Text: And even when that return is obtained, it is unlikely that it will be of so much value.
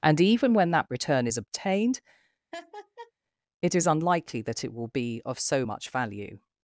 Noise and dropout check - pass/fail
fail